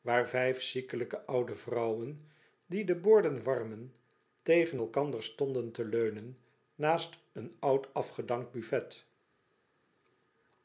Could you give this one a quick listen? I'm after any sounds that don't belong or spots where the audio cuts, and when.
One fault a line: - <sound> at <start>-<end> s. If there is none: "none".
none